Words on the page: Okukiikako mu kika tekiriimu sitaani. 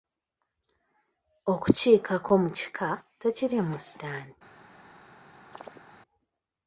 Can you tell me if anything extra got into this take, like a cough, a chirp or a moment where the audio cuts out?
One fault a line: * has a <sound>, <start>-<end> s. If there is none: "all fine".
* has a chirp, 5.5-5.8 s